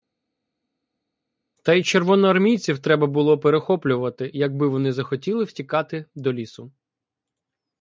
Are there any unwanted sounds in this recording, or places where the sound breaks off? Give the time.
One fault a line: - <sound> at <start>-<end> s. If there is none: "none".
none